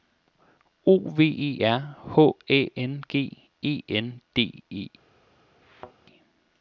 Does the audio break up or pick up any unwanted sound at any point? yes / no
yes